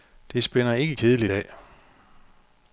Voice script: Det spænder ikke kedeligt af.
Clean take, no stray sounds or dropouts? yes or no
yes